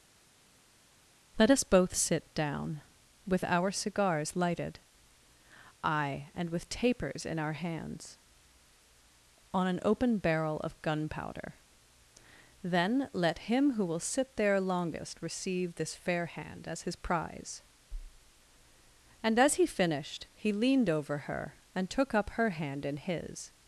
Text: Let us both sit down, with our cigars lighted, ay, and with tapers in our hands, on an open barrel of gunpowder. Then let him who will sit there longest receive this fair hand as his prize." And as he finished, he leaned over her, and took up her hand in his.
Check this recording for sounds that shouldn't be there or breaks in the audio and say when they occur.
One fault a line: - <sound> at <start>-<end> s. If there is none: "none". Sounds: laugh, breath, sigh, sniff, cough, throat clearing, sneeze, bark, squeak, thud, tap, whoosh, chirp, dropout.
none